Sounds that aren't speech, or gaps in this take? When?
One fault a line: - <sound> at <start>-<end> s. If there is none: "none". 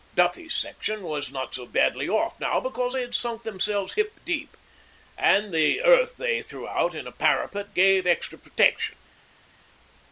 none